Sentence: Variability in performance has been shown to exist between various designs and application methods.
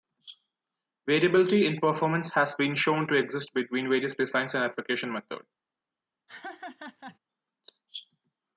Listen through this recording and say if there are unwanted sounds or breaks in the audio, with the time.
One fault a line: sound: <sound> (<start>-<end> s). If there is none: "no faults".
sound: laugh (6.3-7.2 s)